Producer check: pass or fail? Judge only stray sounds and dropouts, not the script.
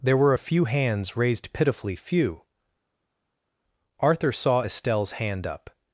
pass